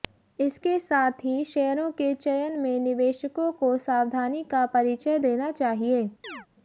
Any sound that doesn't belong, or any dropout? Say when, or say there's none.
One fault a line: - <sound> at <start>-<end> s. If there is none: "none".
- chirp at 6.2-6.5 s